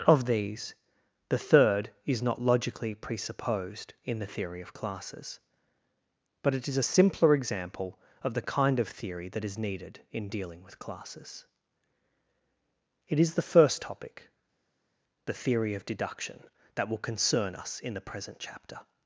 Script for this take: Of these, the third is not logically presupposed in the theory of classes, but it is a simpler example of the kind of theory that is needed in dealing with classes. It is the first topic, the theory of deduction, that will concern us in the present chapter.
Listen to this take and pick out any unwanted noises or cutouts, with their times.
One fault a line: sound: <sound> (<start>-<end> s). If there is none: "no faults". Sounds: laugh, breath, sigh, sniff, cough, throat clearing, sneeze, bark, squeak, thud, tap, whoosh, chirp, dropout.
no faults